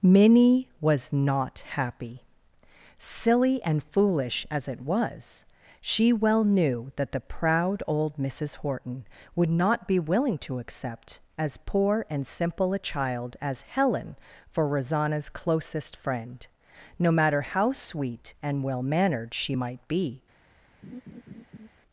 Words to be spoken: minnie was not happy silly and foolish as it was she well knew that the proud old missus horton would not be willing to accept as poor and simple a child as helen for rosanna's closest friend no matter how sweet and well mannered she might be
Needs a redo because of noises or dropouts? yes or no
yes